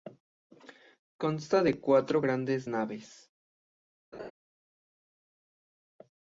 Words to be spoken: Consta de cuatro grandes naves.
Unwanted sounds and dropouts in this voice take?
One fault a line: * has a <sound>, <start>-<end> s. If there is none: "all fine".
* has a laugh, 4.1-4.3 s